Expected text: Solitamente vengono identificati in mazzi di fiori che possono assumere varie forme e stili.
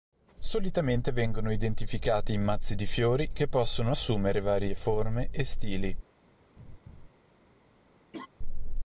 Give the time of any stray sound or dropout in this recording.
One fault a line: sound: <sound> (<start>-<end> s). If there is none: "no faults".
sound: laugh (6.6-7.1 s)
sound: laugh (8.1-8.3 s)